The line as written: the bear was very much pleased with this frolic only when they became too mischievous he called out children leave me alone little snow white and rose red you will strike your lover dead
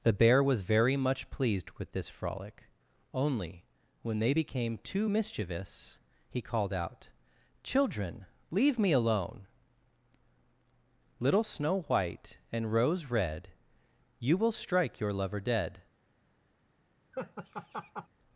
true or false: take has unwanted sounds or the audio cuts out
true